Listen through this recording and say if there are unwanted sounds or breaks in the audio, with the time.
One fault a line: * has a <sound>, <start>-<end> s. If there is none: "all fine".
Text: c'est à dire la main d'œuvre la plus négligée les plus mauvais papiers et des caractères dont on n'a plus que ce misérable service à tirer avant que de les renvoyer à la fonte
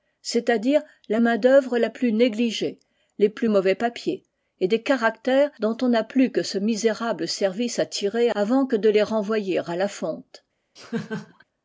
* has a laugh, 10.8-11.4 s